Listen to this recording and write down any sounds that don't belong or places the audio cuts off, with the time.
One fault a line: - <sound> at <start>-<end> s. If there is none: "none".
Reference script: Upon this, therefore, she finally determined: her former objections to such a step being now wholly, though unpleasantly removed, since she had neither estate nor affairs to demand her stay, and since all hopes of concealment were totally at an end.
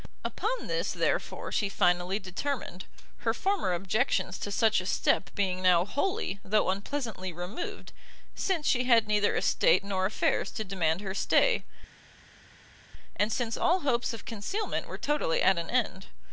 none